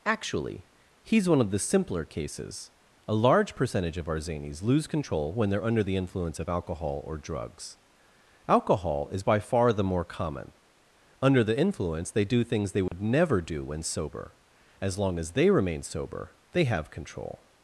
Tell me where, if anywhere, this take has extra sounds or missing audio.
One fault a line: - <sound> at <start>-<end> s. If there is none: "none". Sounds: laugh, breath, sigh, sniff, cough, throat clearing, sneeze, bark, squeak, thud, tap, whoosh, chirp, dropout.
- dropout at 12.9-12.9 s